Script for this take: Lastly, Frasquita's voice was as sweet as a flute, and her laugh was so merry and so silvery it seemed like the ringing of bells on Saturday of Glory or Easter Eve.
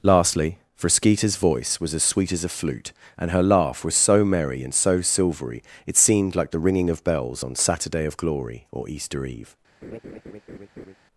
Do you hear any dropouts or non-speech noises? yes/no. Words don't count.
yes